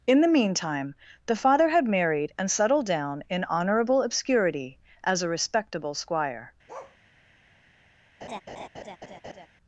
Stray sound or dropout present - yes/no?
yes